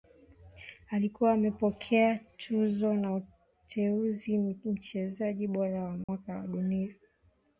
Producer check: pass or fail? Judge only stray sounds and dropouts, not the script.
fail